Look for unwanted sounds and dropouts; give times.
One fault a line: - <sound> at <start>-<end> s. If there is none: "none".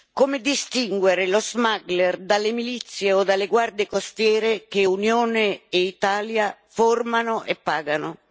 none